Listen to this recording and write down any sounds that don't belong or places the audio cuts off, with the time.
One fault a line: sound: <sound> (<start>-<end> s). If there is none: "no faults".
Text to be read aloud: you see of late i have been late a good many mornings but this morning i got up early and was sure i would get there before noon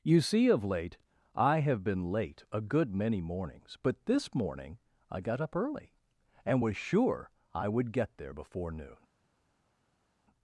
no faults